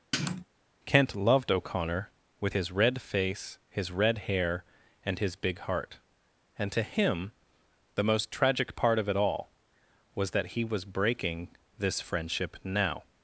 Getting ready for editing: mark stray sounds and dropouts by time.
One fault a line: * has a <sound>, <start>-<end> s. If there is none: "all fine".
* has a sniff, 0.1-0.5 s